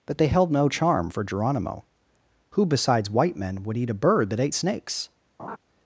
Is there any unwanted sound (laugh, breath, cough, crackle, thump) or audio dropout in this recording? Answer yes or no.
yes